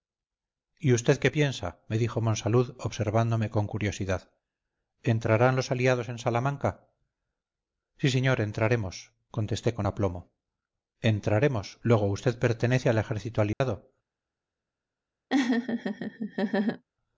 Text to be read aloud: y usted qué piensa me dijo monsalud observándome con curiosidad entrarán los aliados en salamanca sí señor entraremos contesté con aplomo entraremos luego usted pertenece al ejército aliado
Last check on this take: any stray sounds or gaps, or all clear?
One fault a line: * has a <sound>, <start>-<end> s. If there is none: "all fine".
* has a dropout, 13.5-13.6 s
* has a laugh, 15.3-16.8 s